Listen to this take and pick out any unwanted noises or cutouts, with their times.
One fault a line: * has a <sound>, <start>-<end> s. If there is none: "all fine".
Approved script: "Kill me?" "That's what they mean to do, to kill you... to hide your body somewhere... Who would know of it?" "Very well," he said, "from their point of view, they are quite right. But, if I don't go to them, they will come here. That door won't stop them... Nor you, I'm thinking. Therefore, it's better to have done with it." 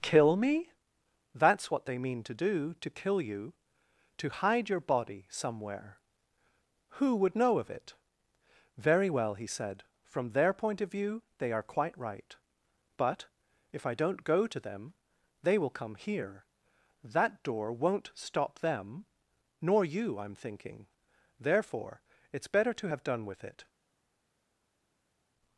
all fine